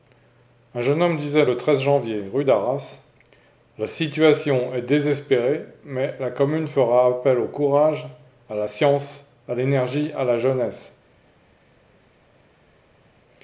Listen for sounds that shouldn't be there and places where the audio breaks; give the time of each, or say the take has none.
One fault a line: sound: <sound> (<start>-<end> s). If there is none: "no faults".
no faults